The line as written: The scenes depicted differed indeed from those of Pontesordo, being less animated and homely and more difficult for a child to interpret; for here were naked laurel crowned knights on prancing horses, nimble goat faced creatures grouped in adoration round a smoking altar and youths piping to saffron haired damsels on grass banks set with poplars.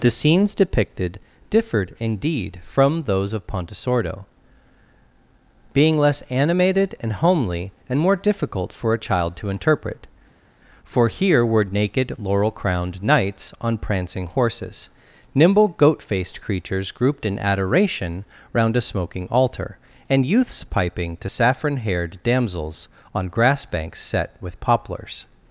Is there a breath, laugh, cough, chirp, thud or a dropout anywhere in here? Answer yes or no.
no